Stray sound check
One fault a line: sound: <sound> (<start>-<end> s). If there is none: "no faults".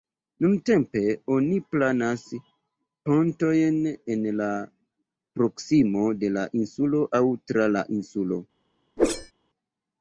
sound: whoosh (9.0-9.3 s)